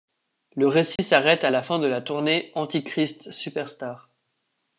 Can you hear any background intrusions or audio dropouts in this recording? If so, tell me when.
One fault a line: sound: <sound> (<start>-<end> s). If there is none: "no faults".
sound: dropout (1.0-1.0 s)